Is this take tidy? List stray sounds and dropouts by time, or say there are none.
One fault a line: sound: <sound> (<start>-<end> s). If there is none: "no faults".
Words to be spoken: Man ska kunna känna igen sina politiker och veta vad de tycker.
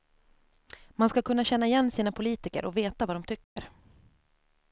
sound: dropout (3.4-3.6 s)